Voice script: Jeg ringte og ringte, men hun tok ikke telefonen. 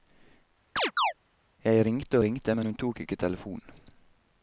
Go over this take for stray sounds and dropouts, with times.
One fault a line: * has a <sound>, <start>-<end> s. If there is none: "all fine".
* has a chirp, 0.8-1.1 s